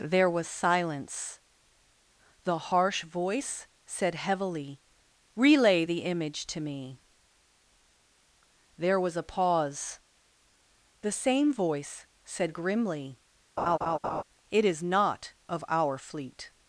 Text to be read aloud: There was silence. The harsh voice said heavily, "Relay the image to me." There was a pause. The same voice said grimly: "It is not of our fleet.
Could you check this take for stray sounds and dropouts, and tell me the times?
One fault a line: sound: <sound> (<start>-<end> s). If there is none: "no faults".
sound: laugh (13.6-14.2 s)